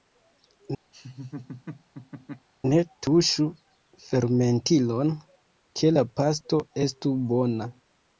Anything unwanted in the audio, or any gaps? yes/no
yes